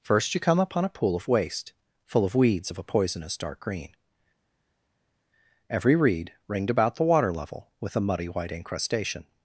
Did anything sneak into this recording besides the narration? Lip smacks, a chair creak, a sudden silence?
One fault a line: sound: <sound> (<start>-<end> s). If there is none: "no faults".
no faults